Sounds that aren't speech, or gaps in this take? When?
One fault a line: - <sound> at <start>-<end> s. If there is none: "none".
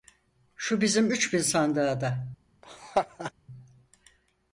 - laugh at 2.6-3.3 s